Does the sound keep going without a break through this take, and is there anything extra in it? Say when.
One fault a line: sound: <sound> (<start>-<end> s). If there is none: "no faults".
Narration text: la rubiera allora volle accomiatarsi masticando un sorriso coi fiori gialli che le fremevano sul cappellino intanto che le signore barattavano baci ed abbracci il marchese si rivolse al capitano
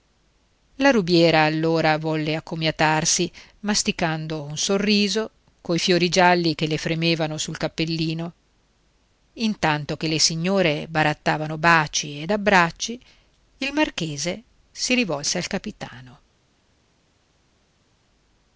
no faults